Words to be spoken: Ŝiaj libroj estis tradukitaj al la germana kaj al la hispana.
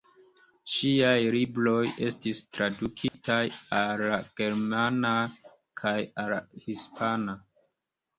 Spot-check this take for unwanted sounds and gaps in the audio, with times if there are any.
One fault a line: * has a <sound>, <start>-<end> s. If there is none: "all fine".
* has a dropout, 3.1-3.1 s